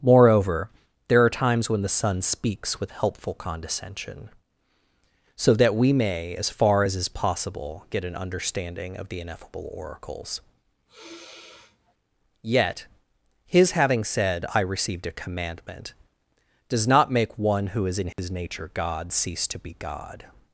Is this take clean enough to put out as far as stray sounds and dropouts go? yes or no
no